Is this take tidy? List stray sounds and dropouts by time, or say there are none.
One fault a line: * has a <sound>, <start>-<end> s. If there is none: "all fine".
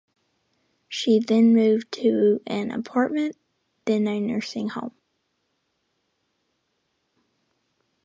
all fine